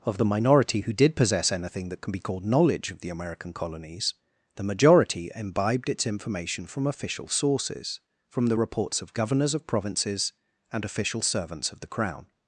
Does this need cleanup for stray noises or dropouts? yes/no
no